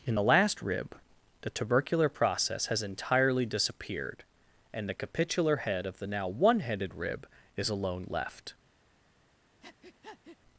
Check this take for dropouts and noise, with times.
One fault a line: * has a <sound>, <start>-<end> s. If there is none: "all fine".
* has a breath, 9.6-10.4 s